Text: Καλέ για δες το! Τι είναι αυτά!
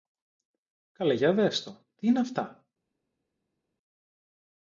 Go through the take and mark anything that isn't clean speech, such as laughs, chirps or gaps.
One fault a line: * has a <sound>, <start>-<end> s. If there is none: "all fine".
all fine